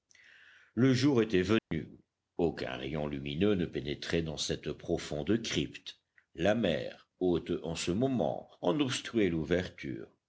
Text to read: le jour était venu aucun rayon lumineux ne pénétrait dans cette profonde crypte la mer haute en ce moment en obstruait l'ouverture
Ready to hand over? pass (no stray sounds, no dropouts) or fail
fail